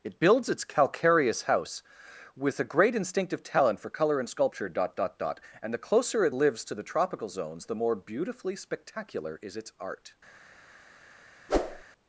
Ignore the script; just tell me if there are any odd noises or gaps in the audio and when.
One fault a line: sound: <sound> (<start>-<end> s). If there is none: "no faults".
sound: whoosh (11.5-11.8 s)